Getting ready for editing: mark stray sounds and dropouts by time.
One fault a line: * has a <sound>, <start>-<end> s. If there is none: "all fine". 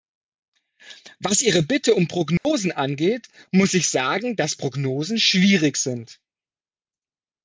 * has a dropout, 2.4-2.4 s